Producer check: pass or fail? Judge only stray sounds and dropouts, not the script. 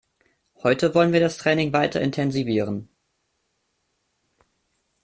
pass